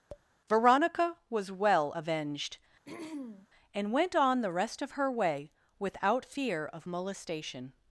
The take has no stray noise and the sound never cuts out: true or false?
false